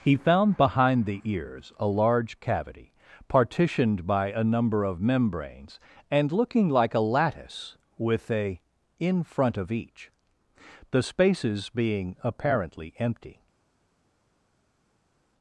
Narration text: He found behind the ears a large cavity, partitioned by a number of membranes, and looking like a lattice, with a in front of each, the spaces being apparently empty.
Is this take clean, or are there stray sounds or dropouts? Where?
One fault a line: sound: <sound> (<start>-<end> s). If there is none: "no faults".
no faults